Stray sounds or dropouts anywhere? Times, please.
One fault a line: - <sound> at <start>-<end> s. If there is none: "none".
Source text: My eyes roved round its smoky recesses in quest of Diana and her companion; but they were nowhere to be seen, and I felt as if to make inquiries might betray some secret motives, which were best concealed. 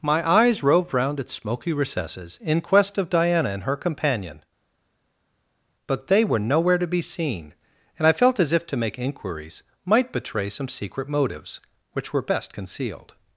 none